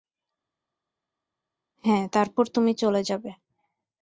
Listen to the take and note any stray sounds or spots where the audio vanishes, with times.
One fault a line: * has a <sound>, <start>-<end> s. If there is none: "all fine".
all fine